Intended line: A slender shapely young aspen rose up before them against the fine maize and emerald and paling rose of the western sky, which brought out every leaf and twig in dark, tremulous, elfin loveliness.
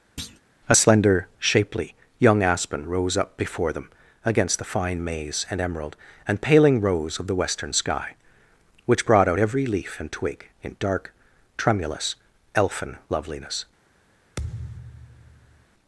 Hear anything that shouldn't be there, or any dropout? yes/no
yes